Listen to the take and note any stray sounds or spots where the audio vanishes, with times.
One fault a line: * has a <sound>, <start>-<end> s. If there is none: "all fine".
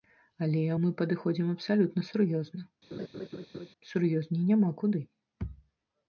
* has a laugh, 2.9-3.7 s